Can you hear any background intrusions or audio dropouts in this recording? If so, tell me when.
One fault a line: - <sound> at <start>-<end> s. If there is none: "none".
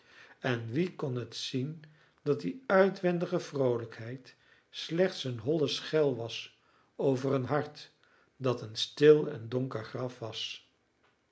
none